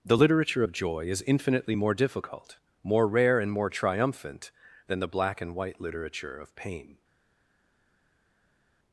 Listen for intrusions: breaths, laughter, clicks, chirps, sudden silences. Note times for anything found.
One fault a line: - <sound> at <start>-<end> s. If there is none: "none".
none